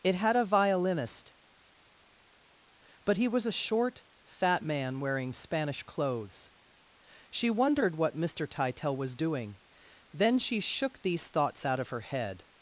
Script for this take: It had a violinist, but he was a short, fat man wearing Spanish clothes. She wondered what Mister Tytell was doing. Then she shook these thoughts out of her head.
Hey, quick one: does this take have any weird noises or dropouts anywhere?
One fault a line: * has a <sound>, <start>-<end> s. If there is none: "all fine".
all fine